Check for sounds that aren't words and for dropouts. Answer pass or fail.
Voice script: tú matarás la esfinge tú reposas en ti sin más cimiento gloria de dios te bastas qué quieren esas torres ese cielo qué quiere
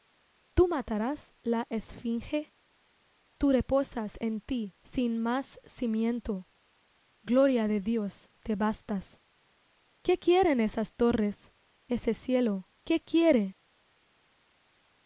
pass